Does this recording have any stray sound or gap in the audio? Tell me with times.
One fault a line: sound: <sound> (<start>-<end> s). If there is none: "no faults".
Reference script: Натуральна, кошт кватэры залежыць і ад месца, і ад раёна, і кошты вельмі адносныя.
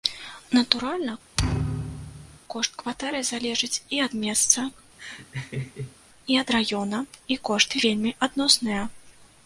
sound: thud (1.4-2.4 s)
sound: laugh (5.0-6.0 s)